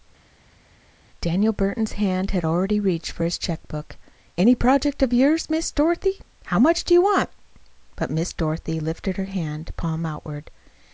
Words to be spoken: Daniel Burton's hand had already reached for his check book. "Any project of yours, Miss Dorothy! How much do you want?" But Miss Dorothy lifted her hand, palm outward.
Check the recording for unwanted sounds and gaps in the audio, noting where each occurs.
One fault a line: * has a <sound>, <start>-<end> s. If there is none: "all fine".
all fine